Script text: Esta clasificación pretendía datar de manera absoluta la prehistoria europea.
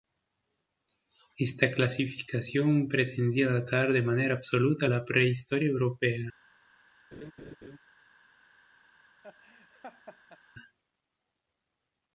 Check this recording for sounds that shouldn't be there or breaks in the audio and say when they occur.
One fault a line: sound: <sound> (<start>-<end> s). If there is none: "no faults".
sound: laugh (7.1-7.8 s)
sound: laugh (9.2-10.4 s)